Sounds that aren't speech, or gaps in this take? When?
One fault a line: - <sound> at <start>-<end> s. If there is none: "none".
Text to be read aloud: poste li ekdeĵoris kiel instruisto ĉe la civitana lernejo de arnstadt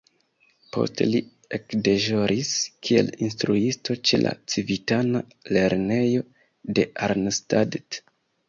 none